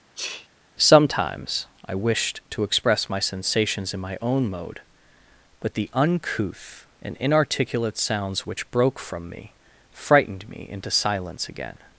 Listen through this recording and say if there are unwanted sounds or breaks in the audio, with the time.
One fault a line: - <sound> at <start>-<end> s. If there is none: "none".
- sneeze at 0.2-0.5 s